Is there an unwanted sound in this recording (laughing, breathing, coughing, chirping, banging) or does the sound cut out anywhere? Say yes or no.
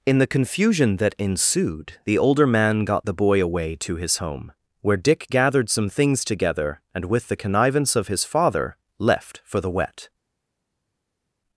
no